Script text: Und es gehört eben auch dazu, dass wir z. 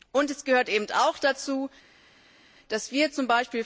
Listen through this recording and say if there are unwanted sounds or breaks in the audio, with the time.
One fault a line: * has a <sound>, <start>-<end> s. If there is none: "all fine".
all fine